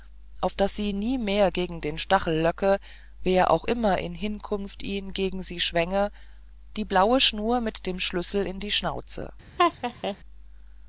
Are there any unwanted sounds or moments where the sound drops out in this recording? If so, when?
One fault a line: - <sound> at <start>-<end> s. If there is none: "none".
- laugh at 9.6-10.2 s